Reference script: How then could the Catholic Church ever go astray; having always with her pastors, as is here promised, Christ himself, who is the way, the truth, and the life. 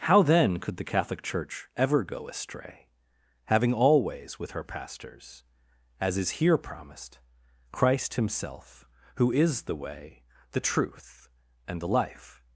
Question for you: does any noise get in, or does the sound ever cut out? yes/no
no